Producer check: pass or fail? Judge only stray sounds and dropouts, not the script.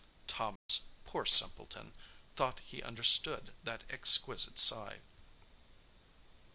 fail